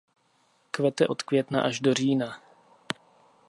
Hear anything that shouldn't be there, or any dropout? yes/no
no